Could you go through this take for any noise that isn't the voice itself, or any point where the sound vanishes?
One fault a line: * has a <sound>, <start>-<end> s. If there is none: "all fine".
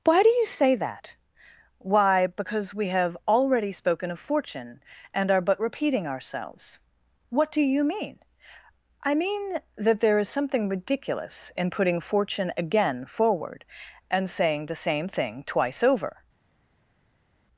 all fine